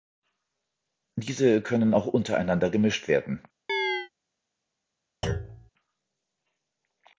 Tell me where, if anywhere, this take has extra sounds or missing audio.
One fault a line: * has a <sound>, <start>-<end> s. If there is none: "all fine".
* has a chirp, 3.7-4.1 s
* has a thud, 5.2-5.7 s